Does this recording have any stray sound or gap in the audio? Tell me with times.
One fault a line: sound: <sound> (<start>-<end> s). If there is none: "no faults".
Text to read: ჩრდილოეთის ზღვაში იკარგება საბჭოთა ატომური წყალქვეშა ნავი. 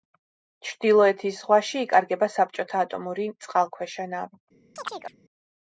sound: chirp (4.8-5.2 s)